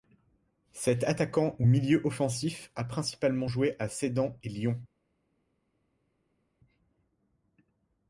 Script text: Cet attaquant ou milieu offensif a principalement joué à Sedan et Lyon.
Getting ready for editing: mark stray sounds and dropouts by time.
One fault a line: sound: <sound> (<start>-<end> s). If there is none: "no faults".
no faults